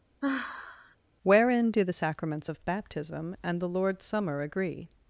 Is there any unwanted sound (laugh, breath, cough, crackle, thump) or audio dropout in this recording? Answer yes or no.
yes